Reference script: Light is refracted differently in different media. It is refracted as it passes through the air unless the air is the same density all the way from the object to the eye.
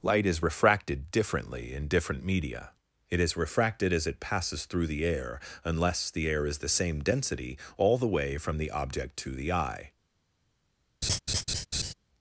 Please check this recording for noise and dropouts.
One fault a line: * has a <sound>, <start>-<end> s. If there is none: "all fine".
* has a laugh, 11.0-11.9 s